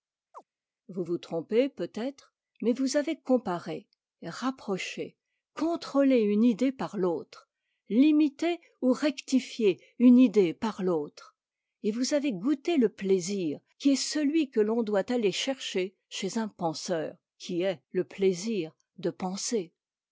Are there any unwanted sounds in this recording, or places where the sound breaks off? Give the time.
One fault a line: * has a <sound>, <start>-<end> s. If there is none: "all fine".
* has a chirp, 0.3-0.4 s